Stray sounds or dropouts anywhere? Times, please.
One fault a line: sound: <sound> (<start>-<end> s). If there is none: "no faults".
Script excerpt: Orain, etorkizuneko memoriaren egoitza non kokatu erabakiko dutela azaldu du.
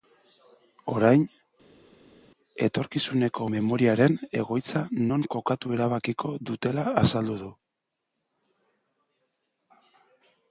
no faults